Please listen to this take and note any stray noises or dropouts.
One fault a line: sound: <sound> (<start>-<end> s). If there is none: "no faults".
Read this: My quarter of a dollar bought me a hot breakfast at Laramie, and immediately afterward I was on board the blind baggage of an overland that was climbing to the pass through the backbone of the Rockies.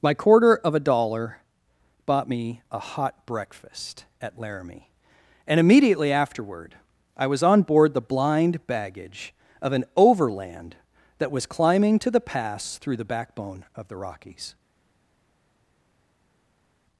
no faults